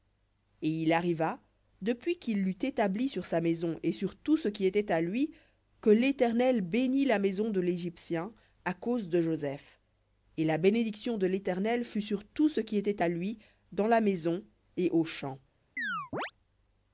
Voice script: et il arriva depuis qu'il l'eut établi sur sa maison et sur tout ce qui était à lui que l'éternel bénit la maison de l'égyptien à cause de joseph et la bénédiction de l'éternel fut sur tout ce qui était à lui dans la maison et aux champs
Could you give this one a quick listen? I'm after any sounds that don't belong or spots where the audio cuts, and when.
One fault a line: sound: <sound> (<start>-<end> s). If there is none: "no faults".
sound: chirp (15.8-16.3 s)